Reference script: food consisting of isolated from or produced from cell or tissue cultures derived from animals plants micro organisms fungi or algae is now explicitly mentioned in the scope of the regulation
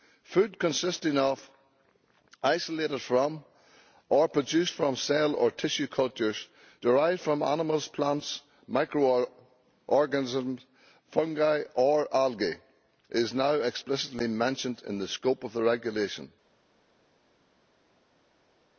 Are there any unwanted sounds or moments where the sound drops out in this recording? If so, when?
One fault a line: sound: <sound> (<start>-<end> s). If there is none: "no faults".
no faults